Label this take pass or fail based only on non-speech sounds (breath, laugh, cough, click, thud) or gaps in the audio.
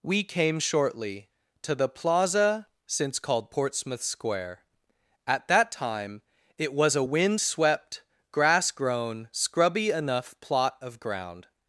pass